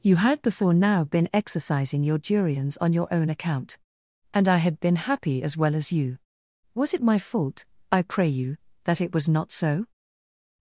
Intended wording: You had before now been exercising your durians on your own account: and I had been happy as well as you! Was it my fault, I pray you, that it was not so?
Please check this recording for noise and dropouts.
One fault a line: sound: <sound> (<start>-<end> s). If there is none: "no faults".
no faults